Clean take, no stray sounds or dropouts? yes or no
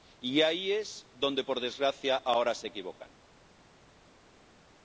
yes